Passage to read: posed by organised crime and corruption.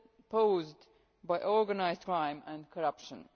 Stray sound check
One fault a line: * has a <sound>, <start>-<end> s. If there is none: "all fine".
all fine